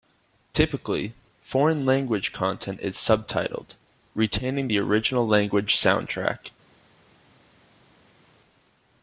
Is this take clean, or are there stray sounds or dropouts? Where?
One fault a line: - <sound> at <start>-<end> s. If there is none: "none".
none